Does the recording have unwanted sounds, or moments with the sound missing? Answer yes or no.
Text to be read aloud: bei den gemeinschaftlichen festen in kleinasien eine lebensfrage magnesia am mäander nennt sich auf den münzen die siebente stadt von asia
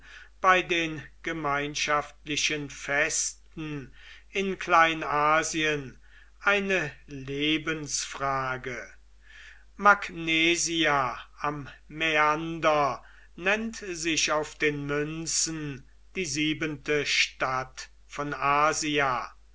no